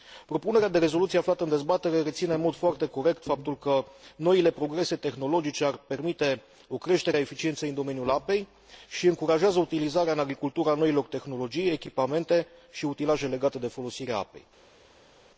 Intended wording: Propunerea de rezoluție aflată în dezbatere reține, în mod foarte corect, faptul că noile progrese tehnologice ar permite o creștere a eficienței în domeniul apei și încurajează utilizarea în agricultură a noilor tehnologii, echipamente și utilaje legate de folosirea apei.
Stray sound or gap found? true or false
false